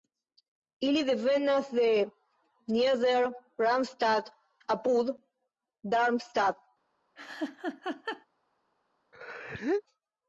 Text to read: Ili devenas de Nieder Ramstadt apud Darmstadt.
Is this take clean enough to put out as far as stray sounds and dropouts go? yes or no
no